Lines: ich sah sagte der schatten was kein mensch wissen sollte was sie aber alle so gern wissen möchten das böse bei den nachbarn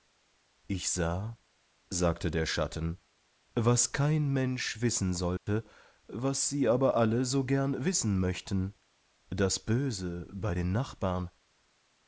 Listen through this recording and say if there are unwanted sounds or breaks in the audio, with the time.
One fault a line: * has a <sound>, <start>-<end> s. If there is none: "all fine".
* has a dropout, 5.4-5.5 s